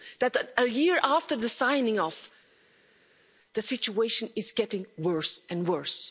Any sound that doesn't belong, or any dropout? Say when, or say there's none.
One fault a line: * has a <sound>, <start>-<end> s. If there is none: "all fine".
all fine